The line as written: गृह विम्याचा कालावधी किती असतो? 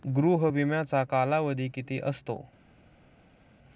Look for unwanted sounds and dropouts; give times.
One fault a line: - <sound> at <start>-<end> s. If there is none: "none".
none